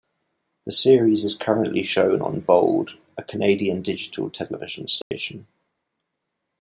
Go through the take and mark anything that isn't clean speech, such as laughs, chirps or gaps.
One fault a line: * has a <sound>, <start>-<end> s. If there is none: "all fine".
* has a dropout, 5.0-5.1 s